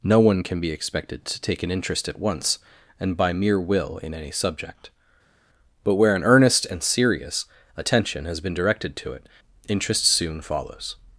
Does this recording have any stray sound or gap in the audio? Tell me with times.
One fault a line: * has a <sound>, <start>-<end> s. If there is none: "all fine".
all fine